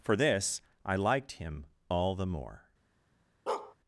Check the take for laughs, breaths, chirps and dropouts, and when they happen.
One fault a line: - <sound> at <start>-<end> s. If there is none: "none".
- bark at 3.5-3.8 s